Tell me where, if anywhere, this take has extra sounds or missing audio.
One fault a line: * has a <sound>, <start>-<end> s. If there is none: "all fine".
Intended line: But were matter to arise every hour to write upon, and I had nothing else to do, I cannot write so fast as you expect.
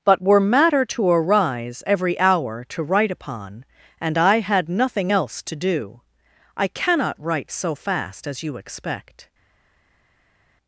all fine